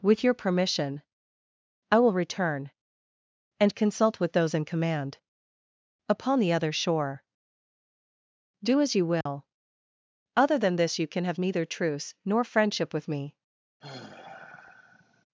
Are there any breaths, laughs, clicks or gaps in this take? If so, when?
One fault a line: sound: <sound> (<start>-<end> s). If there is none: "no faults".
sound: dropout (9.2-9.3 s)
sound: sigh (13.8-15.3 s)